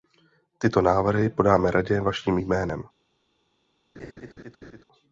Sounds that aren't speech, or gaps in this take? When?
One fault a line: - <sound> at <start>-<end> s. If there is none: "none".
- laugh at 3.9-4.8 s